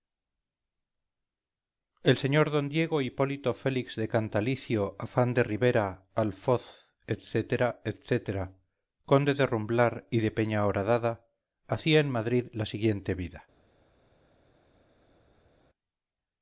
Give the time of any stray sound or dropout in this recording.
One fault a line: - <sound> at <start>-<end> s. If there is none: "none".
none